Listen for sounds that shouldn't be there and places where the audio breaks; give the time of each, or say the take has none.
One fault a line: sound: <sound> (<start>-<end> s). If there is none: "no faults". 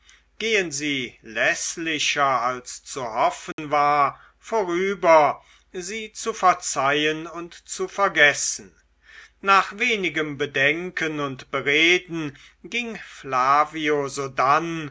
sound: dropout (3.5-3.6 s)